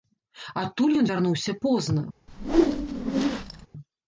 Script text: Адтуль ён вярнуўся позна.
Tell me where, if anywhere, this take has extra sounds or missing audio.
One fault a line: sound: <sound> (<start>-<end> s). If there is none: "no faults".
sound: whoosh (2.3-3.7 s)